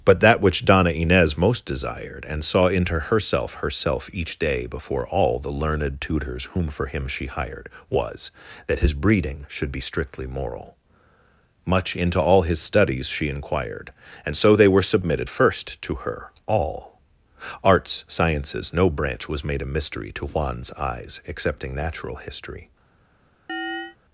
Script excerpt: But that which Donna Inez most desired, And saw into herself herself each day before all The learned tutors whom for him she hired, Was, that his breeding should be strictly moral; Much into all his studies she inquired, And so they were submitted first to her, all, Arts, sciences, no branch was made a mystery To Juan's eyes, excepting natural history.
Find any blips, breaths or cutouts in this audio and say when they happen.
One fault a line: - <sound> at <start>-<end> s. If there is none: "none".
- chirp at 23.5-24.0 s